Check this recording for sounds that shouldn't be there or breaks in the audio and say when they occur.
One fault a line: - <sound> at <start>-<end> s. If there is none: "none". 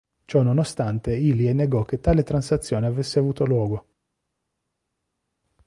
none